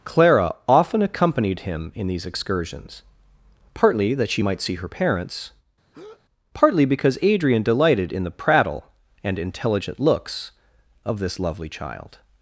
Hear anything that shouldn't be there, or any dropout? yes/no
yes